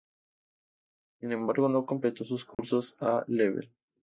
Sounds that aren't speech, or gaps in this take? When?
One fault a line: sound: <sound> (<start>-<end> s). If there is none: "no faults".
sound: dropout (2.5-2.6 s)